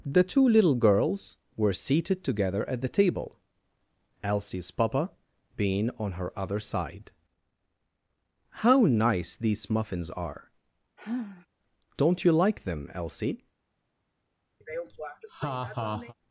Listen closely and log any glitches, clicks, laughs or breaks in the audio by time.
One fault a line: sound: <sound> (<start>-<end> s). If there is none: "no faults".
sound: sigh (11.0-11.5 s)
sound: laugh (14.6-16.1 s)